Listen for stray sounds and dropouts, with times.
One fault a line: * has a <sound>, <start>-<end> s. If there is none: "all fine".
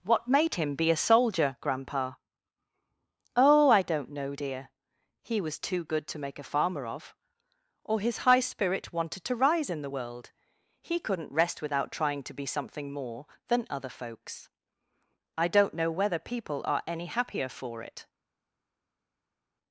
all fine